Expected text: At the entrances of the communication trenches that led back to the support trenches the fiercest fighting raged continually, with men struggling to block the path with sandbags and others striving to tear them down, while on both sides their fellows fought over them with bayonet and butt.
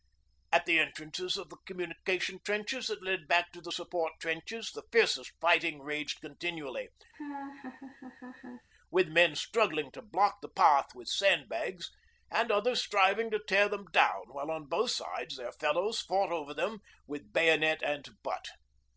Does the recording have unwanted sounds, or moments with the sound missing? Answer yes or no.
yes